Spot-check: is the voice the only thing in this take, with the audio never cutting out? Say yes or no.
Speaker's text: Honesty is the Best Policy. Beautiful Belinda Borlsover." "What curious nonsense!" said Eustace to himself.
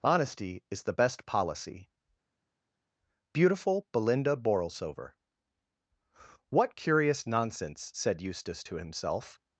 yes